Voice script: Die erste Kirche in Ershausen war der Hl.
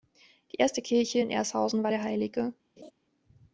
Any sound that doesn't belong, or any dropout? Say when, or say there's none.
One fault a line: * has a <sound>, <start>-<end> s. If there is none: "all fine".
* has a laugh, 2.8-2.9 s